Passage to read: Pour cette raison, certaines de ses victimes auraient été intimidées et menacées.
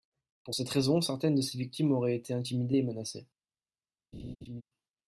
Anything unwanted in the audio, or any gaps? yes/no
yes